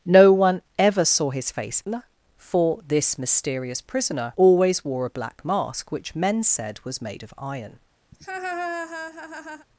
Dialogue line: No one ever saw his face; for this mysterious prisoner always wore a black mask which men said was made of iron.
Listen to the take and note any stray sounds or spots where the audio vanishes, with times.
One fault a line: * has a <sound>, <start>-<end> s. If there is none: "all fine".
* has a laugh, 8.1-9.7 s